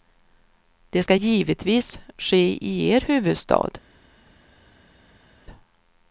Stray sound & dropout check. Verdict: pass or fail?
pass